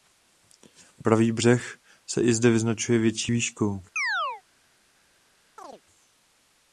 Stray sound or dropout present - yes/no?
yes